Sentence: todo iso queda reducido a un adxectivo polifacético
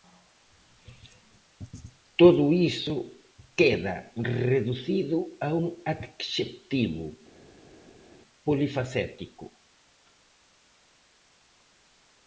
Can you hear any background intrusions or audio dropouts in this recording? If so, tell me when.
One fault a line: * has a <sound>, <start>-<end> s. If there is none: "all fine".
all fine